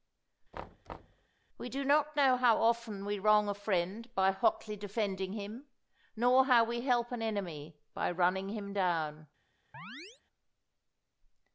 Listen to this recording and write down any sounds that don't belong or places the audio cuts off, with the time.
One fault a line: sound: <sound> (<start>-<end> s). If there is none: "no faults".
sound: thud (0.5-1.3 s)
sound: chirp (9.7-10.2 s)